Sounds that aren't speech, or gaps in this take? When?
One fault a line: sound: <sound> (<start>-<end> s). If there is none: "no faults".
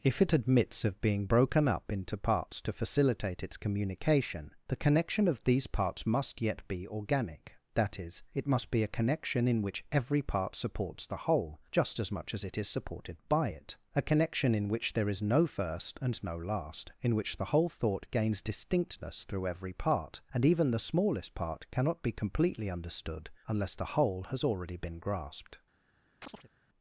sound: chirp (26.2-26.5 s)